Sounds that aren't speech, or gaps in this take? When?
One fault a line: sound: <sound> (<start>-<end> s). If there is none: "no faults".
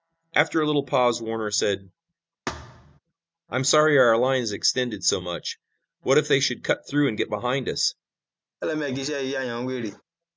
sound: thud (2.5-3.0 s)
sound: laugh (8.6-10.0 s)